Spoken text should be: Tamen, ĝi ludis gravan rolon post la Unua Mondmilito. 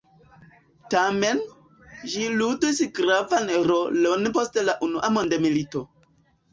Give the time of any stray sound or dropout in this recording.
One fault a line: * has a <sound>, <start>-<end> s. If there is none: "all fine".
all fine